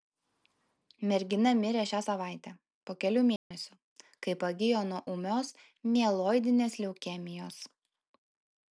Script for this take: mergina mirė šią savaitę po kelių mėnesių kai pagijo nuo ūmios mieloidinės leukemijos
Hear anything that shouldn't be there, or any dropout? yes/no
yes